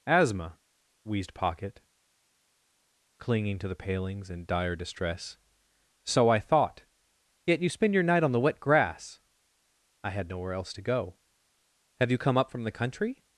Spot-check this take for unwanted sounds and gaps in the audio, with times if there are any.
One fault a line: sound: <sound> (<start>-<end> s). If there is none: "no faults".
no faults